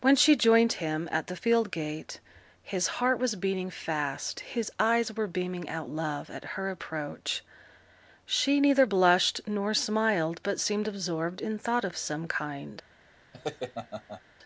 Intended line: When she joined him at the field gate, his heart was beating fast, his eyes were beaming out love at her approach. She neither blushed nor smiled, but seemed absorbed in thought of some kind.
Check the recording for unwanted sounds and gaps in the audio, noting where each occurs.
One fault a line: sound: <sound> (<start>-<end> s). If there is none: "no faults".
sound: laugh (13.3-14.2 s)